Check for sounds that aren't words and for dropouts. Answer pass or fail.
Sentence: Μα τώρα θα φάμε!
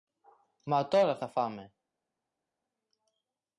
pass